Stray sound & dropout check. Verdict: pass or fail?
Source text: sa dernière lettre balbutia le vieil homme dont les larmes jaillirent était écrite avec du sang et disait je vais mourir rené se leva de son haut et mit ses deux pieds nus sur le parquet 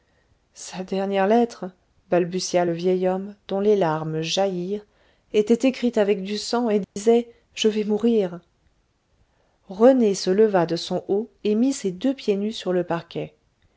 fail